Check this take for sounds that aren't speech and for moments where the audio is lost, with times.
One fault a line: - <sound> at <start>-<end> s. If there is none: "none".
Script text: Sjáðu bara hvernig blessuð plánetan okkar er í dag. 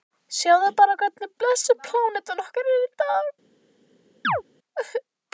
- chirp at 4.2-4.4 s